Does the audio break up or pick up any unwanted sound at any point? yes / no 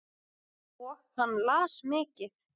no